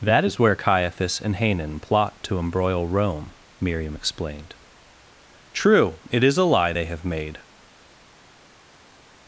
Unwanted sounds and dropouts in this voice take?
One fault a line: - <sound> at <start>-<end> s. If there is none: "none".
none